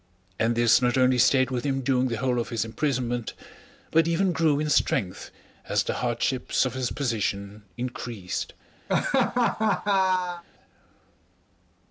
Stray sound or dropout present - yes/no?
yes